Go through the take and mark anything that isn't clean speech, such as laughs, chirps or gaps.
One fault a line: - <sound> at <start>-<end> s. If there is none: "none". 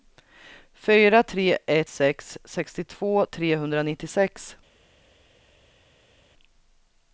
none